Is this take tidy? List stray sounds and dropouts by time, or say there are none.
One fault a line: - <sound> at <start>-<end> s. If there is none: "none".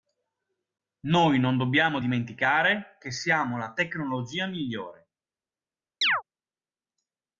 - chirp at 6.0-6.2 s